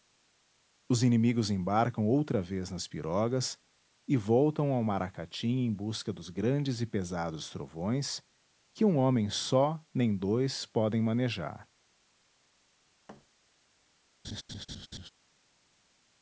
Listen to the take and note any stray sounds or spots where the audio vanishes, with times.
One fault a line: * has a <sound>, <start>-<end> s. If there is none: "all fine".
* has a thud, 13.1-13.3 s
* has a laugh, 14.2-15.1 s